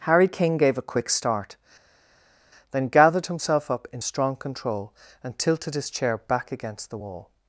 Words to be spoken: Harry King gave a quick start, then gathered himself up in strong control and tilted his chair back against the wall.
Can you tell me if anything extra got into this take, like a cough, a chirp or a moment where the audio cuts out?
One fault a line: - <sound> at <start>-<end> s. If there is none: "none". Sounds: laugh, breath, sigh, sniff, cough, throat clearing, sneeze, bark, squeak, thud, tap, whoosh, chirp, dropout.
none